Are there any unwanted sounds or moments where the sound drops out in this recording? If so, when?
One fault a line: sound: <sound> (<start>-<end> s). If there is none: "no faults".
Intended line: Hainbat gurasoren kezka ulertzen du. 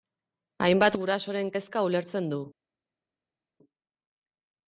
no faults